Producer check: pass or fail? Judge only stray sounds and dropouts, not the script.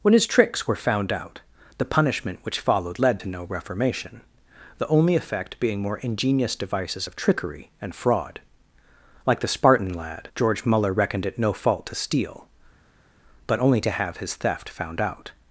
pass